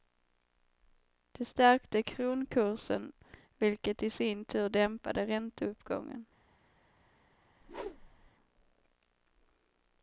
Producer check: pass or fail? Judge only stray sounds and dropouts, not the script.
fail